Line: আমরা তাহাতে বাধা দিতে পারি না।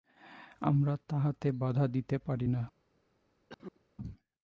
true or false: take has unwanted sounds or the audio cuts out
true